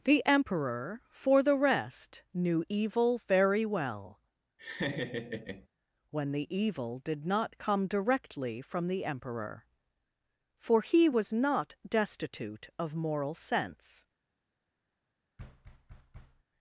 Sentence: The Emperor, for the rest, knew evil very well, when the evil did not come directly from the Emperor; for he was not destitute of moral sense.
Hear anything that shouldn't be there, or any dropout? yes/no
yes